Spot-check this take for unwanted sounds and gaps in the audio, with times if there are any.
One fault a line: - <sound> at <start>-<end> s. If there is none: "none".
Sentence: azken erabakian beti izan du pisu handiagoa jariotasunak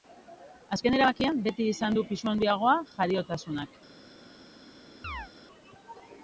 - chirp at 5.0-5.3 s